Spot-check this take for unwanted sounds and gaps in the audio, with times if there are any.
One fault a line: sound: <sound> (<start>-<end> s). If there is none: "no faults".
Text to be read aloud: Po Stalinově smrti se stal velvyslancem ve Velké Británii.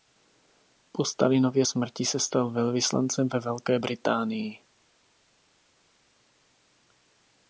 no faults